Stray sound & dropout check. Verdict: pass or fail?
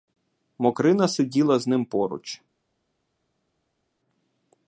pass